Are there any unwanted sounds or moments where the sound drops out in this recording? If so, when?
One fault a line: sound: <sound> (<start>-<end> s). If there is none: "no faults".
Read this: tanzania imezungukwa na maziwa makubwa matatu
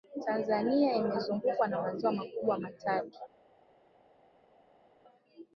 no faults